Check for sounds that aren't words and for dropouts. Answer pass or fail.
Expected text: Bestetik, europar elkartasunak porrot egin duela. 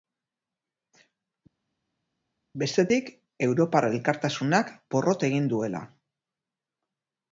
pass